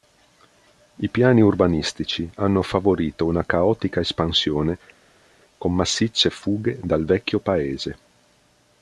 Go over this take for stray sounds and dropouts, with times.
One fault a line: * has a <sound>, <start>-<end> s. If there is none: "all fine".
all fine